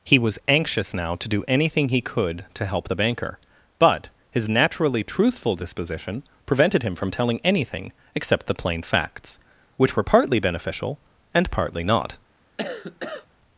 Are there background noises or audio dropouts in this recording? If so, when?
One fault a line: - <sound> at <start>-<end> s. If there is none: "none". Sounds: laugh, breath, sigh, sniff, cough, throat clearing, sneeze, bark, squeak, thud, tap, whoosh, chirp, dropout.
- cough at 12.6-13.3 s